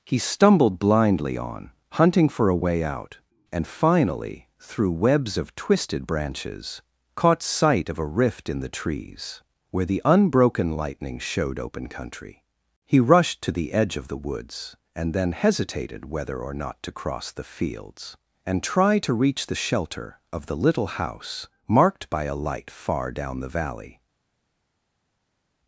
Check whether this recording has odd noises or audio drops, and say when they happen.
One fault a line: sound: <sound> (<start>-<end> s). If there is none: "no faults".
no faults